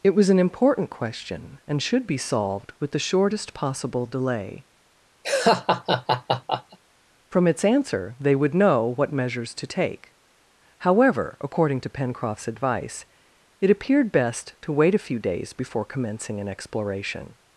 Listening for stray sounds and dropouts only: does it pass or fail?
fail